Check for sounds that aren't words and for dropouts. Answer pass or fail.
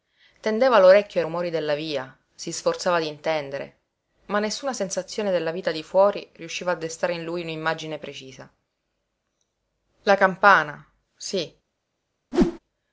fail